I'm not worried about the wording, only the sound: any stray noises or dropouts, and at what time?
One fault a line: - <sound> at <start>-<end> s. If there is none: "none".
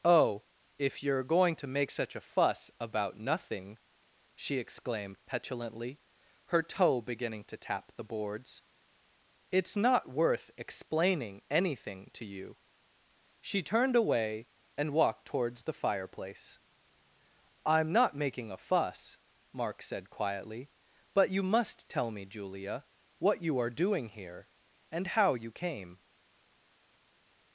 none